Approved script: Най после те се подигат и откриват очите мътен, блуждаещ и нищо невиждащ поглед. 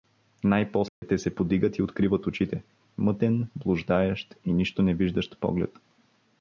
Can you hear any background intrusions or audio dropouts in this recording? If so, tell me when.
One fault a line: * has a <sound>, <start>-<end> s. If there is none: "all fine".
* has a dropout, 0.9-1.0 s